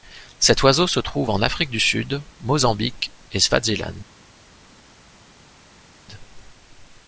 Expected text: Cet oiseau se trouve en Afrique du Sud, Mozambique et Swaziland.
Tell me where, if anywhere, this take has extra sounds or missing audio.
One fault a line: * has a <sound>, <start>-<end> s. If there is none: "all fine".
all fine